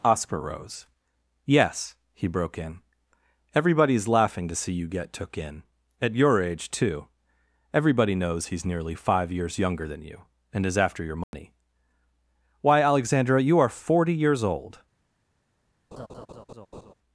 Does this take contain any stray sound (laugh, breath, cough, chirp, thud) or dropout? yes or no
yes